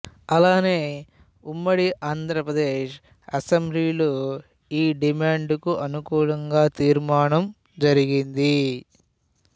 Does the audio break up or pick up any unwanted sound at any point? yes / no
no